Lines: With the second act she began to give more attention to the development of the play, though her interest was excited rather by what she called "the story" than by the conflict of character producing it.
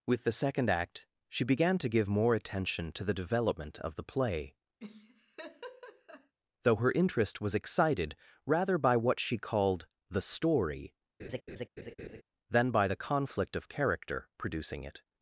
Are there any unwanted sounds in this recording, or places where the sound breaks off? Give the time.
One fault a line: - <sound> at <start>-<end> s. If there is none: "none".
- laugh at 4.8-6.3 s
- laugh at 11.2-12.2 s